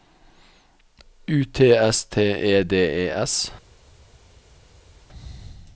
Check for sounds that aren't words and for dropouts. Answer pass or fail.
pass